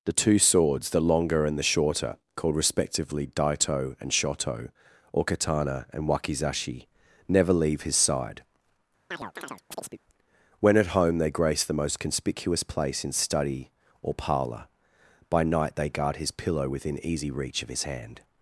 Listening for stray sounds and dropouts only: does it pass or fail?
fail